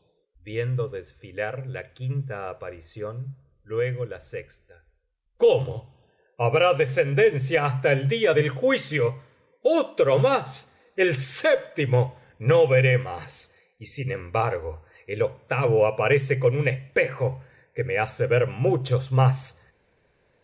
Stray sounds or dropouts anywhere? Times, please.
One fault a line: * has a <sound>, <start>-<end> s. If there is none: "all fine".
all fine